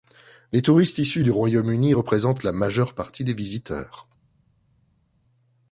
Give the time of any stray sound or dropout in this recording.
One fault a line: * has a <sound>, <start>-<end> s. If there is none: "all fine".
all fine